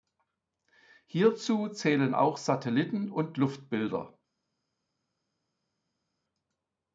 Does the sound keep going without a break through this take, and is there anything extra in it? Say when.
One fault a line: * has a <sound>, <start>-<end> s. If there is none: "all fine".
all fine